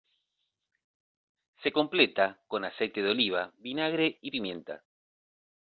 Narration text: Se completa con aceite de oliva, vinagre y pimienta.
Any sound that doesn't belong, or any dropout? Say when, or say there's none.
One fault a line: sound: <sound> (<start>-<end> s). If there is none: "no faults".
no faults